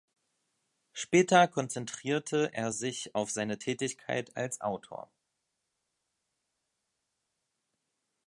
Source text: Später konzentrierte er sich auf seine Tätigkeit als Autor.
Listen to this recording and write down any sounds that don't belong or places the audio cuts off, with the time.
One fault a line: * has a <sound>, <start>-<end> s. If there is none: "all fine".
all fine